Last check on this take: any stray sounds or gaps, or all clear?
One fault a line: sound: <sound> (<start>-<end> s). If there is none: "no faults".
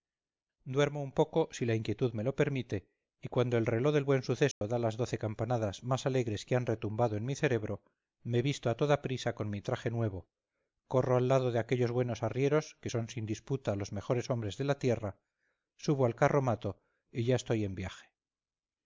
sound: dropout (4.5-4.6 s)